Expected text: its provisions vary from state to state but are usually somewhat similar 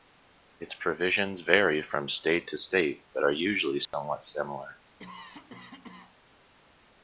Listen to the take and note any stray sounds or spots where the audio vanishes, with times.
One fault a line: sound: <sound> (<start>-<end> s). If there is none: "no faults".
sound: dropout (3.9-3.9 s)
sound: cough (5.0-6.2 s)